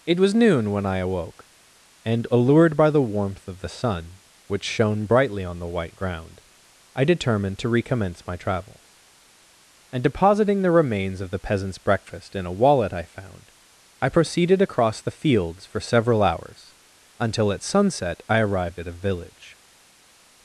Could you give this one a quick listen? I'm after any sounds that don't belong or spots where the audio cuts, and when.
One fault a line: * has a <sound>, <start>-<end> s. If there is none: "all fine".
all fine